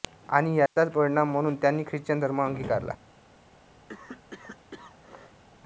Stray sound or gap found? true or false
true